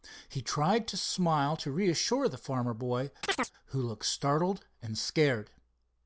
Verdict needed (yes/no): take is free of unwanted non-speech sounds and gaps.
no